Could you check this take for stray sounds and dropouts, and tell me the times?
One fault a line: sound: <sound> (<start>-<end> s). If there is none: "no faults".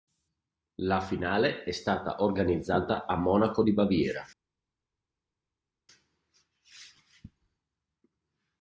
no faults